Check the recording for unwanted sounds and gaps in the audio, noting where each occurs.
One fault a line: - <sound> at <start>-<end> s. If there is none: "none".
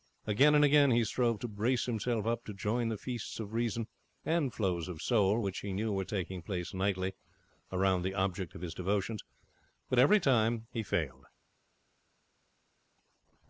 none